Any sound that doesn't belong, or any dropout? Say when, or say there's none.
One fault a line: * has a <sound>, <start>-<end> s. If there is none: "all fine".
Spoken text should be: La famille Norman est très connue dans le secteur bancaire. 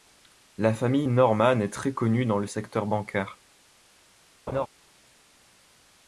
* has a laugh, 4.5-4.7 s